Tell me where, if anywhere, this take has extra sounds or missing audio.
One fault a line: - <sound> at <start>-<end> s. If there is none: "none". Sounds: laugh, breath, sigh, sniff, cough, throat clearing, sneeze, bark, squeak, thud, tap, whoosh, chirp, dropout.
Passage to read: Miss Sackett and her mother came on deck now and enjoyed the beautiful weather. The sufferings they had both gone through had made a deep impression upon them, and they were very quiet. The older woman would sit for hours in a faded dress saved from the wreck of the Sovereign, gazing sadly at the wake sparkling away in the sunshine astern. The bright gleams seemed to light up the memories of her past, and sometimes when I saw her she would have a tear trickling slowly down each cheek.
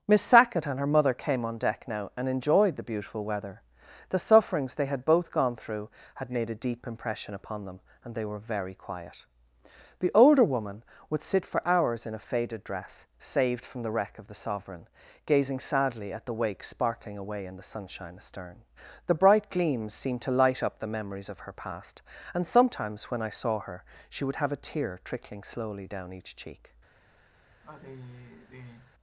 - sigh at 27.6-28.9 s